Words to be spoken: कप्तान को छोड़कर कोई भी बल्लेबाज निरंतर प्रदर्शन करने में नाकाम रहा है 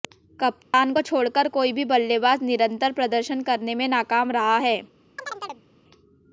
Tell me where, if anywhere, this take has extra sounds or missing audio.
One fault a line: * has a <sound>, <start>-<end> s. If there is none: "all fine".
* has a dropout, 0.6-0.7 s
* has a chirp, 5.2-5.6 s